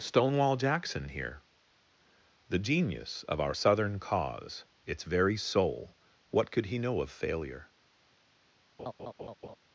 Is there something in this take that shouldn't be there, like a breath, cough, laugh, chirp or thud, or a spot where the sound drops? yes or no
yes